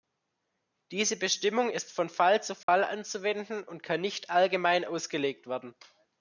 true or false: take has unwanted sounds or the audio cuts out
true